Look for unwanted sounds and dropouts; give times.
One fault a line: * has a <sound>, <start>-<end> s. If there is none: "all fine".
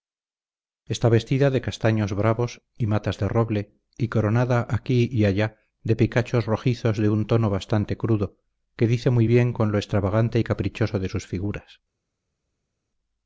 all fine